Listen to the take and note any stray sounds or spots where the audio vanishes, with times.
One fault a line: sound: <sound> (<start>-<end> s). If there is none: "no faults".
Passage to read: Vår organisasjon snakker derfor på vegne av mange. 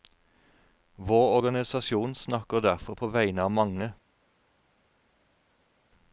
no faults